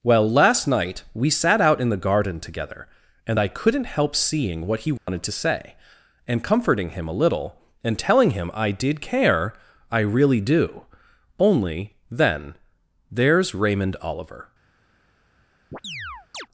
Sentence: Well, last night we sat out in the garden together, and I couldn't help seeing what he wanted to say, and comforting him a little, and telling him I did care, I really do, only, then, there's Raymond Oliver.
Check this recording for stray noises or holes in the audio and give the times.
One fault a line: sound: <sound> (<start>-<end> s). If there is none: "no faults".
sound: dropout (5.0-5.1 s)
sound: chirp (15.7-16.5 s)